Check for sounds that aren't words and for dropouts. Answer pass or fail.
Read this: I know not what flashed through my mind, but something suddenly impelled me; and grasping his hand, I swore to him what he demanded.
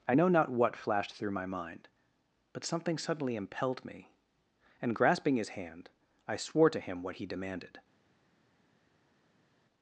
pass